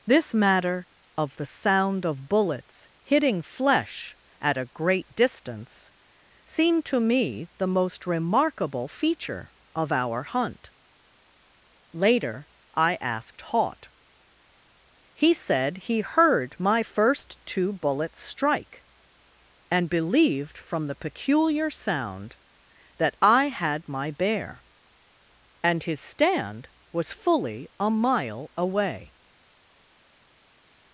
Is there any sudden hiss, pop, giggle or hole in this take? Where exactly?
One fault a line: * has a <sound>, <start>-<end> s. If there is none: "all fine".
all fine